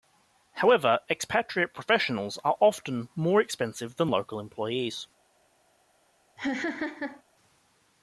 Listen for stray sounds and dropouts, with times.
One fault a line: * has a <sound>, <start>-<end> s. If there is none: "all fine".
* has a laugh, 6.4-7.2 s